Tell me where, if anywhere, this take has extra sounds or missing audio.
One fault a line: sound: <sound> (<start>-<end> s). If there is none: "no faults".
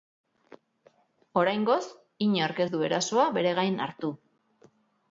no faults